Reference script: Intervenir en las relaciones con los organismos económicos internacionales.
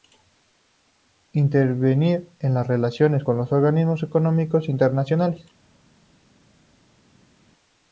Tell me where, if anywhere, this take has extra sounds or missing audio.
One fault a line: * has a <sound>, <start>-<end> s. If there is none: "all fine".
all fine